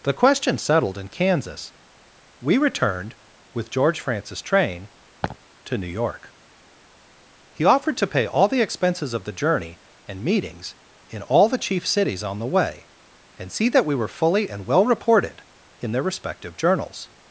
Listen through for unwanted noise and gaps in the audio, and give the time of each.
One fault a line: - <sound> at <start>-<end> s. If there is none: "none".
- laugh at 5.2-5.4 s